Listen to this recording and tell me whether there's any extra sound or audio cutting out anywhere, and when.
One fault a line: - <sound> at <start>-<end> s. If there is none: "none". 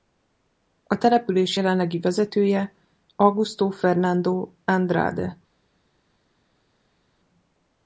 none